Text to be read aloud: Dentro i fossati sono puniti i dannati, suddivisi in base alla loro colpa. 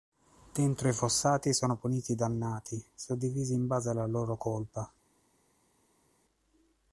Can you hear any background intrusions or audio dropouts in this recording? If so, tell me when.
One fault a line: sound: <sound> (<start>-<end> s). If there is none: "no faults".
no faults